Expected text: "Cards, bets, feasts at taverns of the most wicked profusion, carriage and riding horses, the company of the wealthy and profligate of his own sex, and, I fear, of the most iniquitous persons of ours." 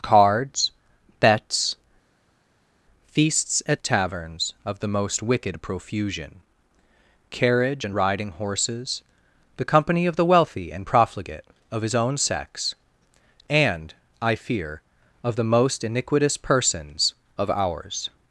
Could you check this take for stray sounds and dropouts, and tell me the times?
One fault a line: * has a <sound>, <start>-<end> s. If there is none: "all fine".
all fine